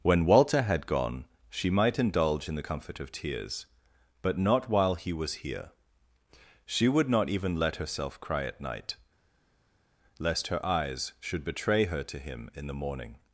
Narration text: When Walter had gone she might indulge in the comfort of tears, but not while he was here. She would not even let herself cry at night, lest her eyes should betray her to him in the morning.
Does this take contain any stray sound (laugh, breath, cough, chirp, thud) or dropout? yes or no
no